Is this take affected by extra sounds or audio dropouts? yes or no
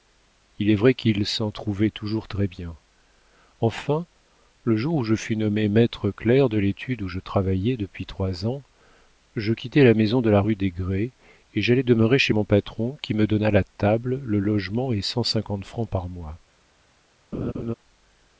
yes